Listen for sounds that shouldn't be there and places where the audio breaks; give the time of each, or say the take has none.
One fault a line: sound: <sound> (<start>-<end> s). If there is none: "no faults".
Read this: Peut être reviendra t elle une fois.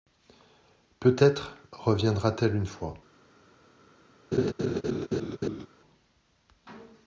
sound: laugh (4.3-5.7 s)